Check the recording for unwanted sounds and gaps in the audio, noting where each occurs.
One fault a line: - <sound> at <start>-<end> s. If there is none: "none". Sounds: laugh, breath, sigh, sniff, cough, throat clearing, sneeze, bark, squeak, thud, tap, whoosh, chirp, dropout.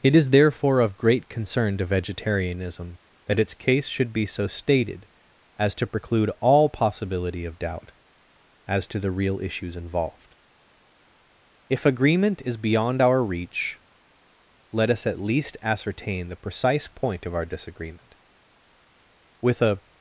none